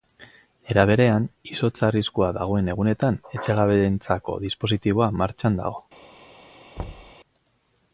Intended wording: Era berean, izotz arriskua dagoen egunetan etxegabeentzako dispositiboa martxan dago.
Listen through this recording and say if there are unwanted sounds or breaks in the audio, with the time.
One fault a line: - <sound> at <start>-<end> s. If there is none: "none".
- thud at 6.8-7.1 s